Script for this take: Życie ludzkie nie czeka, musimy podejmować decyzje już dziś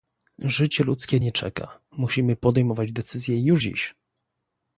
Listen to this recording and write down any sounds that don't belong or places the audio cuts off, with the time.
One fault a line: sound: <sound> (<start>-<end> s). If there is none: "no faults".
no faults